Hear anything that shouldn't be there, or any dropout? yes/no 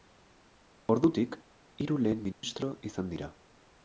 yes